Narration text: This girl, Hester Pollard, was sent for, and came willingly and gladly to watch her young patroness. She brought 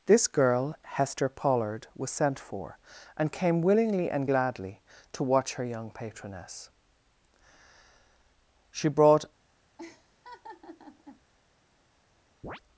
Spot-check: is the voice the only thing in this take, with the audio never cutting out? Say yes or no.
no